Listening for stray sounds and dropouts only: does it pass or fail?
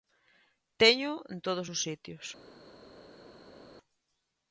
pass